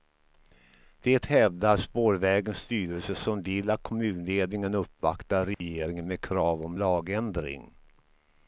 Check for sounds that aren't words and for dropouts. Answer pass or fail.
fail